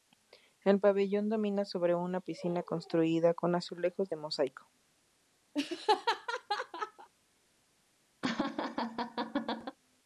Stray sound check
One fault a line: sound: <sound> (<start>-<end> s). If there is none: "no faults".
sound: laugh (5.5-7.1 s)
sound: laugh (8.2-9.8 s)